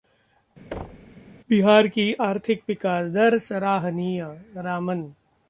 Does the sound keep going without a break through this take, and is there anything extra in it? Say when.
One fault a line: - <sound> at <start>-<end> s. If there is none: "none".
- thud at 0.7-1.2 s